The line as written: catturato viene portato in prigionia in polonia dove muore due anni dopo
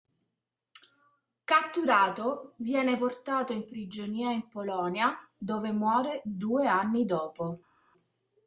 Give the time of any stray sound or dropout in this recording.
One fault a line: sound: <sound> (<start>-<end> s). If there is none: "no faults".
no faults